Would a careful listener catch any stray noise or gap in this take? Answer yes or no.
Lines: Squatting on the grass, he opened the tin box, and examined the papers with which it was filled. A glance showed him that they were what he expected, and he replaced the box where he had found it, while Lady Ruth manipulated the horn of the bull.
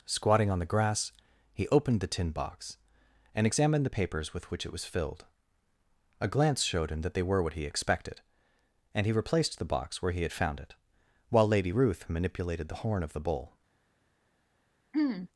yes